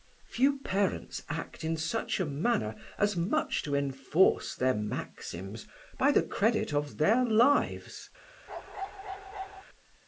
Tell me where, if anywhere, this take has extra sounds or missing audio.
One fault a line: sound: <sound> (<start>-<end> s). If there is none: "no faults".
sound: bark (8.5-9.6 s)